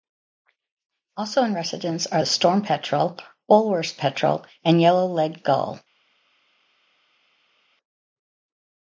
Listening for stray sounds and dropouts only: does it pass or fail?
pass